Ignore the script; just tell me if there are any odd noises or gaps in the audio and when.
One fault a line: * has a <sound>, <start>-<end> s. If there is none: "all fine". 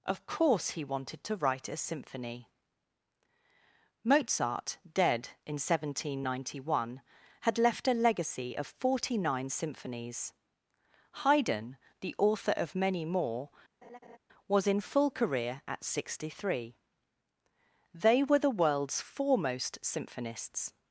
* has a laugh, 13.8-14.2 s